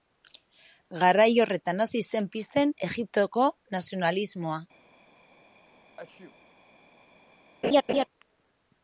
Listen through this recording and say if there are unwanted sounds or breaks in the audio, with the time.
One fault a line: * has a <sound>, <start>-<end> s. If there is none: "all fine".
* has a sneeze, 6.0-6.4 s
* has a laugh, 7.6-8.0 s